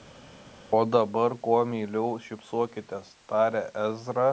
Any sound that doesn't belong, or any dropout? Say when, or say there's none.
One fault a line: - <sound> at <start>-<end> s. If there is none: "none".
none